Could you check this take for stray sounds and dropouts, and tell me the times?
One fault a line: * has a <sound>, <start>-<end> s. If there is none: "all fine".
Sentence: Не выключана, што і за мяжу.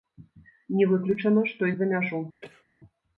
* has a cough, 2.4-2.7 s